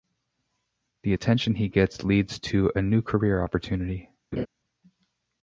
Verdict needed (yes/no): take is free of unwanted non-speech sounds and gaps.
no